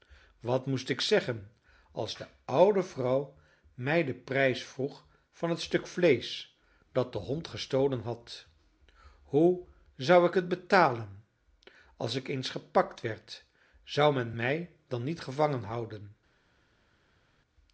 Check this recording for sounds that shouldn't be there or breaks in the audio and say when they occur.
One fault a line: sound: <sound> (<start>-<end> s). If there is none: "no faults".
no faults